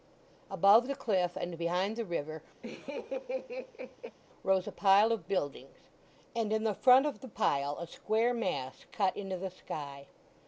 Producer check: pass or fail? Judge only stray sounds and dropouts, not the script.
fail